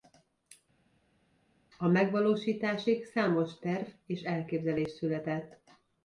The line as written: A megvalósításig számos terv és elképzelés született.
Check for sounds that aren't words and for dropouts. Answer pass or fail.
pass